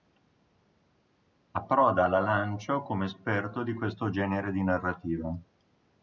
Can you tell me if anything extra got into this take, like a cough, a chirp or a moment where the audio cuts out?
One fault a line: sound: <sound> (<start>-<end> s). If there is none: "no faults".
no faults